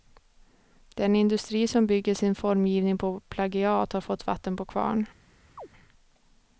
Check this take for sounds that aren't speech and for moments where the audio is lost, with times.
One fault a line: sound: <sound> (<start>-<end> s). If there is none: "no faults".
sound: chirp (5.6-5.7 s)